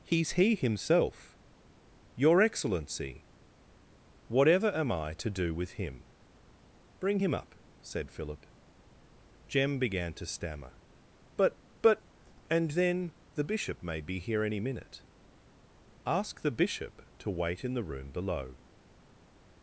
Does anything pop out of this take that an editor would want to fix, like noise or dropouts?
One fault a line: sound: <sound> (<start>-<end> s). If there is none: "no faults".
no faults